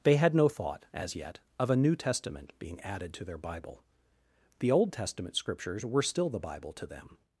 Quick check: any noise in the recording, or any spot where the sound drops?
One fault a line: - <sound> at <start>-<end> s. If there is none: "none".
none